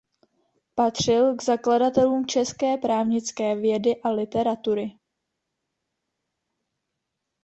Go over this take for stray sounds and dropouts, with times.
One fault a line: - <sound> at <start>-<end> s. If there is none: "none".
none